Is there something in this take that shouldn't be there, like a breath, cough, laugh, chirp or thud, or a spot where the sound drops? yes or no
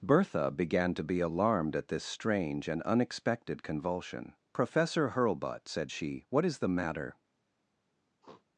yes